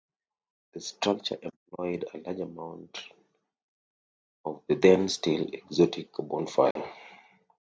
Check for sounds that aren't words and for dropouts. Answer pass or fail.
fail